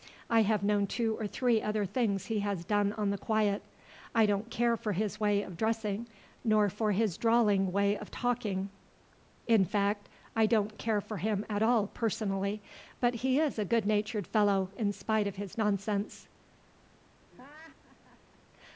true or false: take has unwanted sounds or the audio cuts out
true